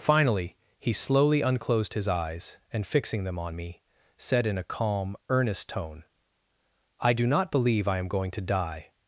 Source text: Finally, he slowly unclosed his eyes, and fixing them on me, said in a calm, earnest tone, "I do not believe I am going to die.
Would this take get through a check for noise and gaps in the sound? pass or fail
pass